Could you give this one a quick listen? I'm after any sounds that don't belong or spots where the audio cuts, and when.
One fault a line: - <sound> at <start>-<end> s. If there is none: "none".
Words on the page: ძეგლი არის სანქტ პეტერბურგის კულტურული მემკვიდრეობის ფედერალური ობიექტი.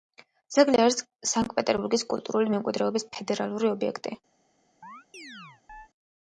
- chirp at 4.8-5.9 s